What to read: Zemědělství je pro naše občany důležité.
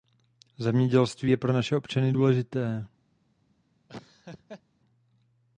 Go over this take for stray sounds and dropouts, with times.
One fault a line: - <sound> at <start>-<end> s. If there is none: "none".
- laugh at 3.9-4.6 s